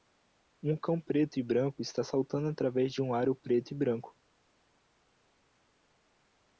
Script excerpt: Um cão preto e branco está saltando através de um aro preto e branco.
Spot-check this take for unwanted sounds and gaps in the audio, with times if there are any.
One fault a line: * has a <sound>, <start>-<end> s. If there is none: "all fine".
all fine